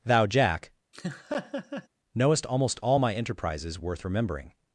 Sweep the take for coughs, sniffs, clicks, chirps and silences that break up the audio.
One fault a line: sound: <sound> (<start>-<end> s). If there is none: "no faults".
sound: laugh (0.9-1.9 s)